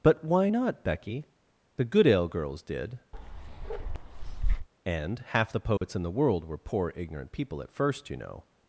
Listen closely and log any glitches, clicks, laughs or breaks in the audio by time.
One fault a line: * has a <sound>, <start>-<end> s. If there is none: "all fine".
* has a bark, 3.1-4.7 s
* has a dropout, 5.8-5.8 s